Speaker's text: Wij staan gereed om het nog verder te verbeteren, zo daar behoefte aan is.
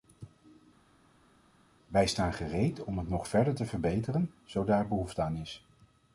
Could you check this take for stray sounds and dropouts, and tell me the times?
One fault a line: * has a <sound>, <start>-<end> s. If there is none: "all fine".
all fine